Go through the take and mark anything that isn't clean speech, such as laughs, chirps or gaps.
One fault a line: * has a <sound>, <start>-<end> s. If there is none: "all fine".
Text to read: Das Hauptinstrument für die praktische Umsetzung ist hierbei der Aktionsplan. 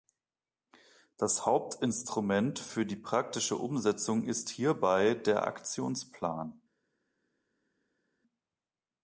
all fine